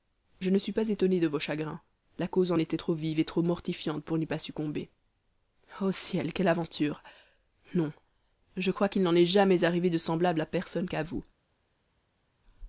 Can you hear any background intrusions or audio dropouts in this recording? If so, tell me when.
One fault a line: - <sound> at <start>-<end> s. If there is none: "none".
none